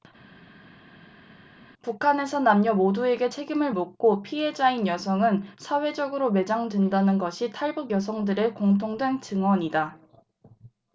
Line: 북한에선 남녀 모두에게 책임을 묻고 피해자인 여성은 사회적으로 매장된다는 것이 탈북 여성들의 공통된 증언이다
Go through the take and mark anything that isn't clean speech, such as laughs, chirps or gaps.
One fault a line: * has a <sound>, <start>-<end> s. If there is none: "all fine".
all fine